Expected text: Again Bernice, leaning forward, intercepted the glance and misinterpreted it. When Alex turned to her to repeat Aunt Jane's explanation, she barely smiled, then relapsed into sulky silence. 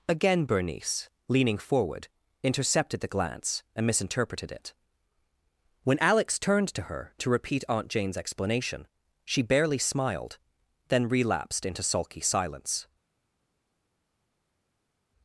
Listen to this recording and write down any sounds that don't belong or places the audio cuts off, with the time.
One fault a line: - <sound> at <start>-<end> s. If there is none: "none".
none